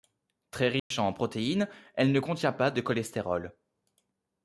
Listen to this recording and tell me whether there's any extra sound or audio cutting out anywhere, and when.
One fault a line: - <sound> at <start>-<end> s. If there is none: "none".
- dropout at 0.8-0.9 s